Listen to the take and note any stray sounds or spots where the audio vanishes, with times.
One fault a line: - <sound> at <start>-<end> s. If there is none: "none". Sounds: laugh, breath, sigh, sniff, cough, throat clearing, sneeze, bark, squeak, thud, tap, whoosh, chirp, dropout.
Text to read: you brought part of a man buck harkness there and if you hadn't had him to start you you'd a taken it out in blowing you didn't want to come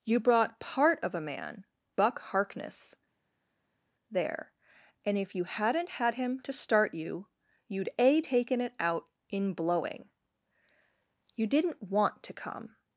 none